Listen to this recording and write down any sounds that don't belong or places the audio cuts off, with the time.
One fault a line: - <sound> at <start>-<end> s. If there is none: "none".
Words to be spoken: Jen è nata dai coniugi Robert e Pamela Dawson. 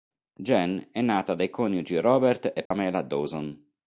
- dropout at 2.7-2.7 s